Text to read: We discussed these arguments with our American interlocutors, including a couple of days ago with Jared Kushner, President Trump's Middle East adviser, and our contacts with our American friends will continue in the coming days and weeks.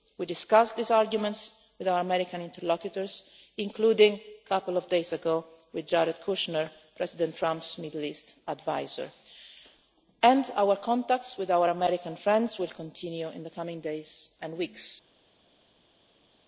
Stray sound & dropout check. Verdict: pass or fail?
pass